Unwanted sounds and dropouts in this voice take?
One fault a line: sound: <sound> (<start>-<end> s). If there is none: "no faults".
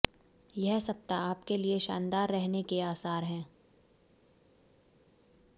no faults